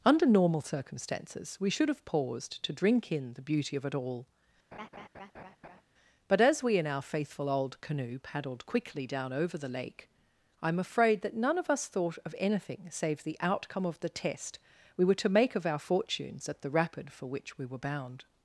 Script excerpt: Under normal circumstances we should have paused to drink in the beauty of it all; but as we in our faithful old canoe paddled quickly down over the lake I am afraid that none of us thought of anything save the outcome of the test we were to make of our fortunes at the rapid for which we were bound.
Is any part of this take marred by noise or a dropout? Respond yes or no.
yes